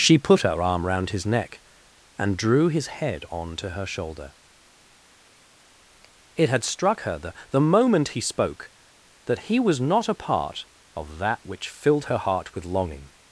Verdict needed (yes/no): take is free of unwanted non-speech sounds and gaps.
yes